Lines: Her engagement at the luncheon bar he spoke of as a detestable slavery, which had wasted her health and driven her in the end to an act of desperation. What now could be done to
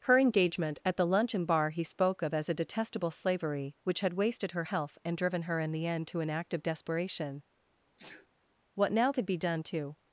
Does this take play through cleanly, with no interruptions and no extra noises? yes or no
no